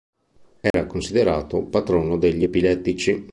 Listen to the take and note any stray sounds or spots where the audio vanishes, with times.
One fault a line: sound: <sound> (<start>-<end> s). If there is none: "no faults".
sound: dropout (0.7-0.7 s)